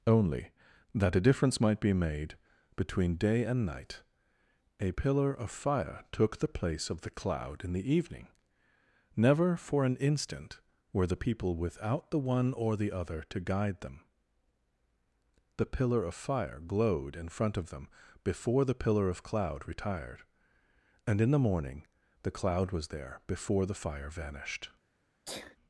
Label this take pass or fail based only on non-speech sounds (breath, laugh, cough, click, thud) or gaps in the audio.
fail